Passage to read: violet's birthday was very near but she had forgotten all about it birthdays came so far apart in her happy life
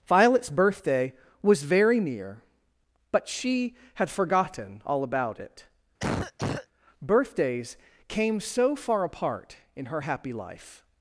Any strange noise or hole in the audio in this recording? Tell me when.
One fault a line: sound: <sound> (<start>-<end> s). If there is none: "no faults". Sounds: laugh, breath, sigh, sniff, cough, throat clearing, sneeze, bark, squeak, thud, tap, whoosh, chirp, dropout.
sound: cough (6.0-6.7 s)